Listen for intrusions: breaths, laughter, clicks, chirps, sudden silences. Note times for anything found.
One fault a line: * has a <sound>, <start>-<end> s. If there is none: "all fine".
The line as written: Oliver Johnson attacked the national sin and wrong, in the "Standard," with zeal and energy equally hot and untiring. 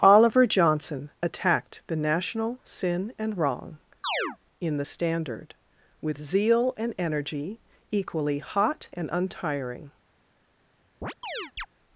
* has a chirp, 4.0-4.4 s
* has a chirp, 11.0-11.7 s